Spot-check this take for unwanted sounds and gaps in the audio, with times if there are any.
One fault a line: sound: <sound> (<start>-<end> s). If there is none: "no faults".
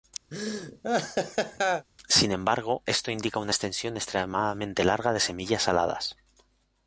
sound: laugh (0.3-1.9 s)